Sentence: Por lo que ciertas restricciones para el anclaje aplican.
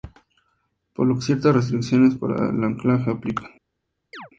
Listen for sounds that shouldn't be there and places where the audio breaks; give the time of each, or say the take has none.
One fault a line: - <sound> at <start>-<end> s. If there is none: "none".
- chirp at 4.1-4.3 s